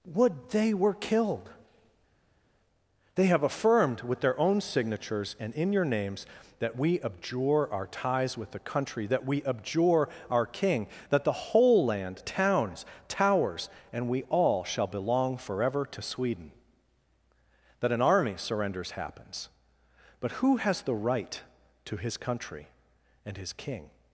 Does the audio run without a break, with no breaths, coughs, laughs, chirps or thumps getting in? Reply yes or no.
yes